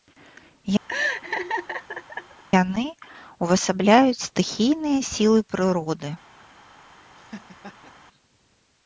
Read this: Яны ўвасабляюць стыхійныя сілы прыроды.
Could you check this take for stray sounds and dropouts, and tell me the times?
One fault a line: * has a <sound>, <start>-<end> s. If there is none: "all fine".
* has a laugh, 0.9-2.4 s
* has a laugh, 7.2-7.9 s